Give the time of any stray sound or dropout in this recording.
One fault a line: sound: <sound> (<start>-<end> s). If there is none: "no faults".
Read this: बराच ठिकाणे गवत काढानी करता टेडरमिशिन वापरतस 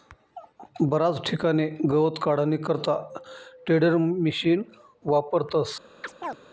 sound: chirp (6.0-6.4 s)